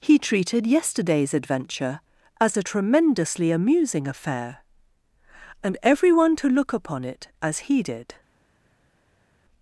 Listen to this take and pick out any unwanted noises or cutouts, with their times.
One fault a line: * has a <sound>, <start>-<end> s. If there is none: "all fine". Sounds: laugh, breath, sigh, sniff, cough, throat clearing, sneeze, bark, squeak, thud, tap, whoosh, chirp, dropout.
all fine